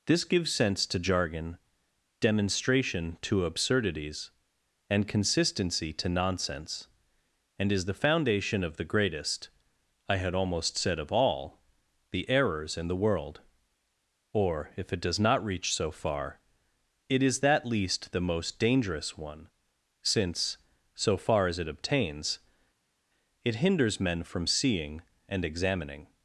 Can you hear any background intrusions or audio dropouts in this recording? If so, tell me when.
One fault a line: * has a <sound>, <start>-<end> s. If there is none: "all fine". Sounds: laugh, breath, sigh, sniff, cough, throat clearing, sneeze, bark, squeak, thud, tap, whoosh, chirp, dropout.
all fine